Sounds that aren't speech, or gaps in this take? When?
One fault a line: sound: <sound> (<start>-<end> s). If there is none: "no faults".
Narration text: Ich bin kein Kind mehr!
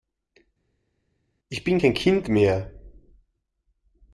no faults